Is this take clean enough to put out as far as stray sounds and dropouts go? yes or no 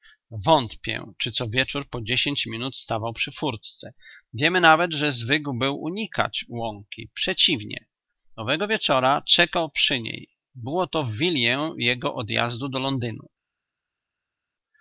yes